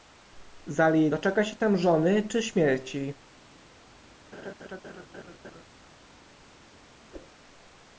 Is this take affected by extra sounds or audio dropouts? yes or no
yes